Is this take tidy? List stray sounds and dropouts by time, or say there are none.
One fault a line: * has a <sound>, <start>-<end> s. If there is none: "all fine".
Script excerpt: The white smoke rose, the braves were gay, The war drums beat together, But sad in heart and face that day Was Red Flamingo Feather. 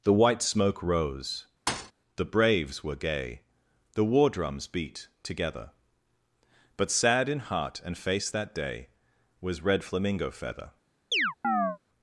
* has a thud, 1.7-1.9 s
* has a chirp, 11.1-11.8 s